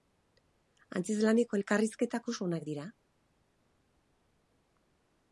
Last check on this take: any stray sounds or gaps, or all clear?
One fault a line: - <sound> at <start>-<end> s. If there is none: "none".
none